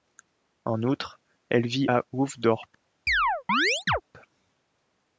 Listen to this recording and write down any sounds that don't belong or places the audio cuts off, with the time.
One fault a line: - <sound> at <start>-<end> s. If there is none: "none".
- chirp at 3.1-4.0 s